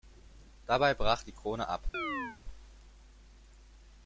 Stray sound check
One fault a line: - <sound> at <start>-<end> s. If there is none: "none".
- chirp at 1.9-2.4 s